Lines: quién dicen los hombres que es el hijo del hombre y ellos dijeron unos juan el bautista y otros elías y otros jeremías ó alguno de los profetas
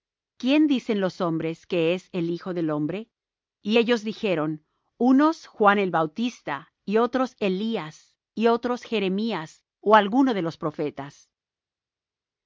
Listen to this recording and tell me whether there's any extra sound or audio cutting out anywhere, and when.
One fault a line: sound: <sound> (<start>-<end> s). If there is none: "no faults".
no faults